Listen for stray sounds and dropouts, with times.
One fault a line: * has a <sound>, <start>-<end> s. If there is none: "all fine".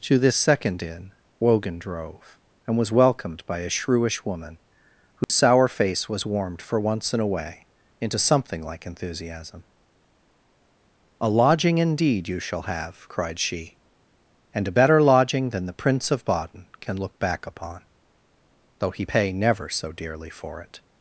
* has a dropout, 5.2-5.3 s